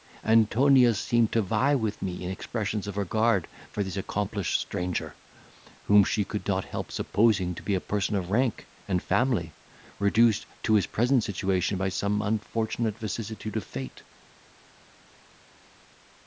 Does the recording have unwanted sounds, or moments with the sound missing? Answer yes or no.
no